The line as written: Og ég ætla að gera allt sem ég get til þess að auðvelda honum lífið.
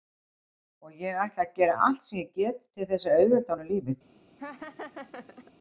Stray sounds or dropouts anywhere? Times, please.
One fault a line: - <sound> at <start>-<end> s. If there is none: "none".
- laugh at 4.4-5.5 s